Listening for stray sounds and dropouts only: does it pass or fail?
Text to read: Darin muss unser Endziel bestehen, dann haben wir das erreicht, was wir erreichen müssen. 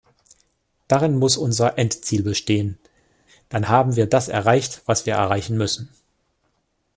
pass